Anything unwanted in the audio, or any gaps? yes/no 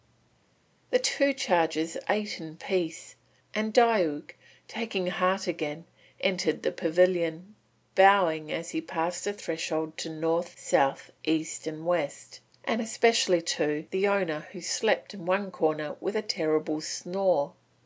no